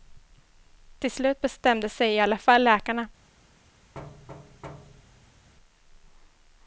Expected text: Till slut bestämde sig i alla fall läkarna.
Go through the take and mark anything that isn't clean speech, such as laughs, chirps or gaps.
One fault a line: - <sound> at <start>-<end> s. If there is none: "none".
- thud at 3.9-5.5 s